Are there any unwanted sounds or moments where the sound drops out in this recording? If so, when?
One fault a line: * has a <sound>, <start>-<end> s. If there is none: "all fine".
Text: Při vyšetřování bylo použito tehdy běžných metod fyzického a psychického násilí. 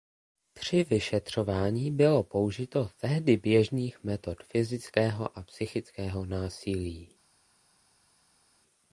all fine